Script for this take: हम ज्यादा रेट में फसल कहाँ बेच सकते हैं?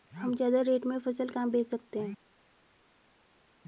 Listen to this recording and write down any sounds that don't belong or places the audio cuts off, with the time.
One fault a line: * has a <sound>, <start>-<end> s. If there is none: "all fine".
all fine